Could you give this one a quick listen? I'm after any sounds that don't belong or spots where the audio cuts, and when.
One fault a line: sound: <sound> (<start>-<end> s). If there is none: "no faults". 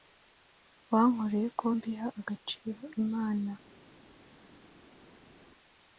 no faults